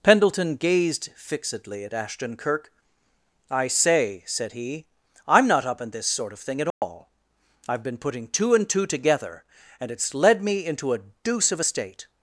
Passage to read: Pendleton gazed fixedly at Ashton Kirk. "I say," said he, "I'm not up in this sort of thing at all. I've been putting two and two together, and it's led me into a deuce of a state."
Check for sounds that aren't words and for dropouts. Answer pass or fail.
fail